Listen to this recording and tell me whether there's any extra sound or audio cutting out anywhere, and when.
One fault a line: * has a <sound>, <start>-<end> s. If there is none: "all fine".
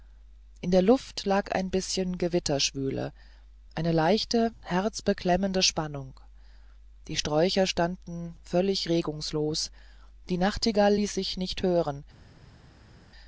all fine